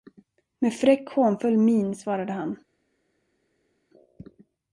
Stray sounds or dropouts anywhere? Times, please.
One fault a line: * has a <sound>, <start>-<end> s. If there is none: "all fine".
all fine